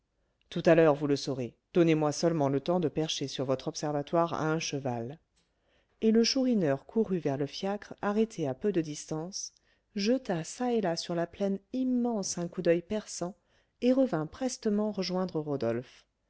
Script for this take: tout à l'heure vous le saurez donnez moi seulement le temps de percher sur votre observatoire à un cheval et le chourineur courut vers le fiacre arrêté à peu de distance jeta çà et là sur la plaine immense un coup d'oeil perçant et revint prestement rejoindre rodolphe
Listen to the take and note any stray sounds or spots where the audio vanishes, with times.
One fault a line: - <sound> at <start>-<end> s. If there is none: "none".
none